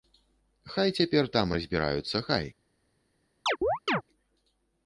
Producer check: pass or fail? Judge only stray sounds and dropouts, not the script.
fail